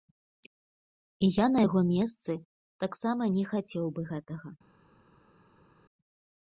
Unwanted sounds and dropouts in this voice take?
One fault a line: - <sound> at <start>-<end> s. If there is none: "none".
none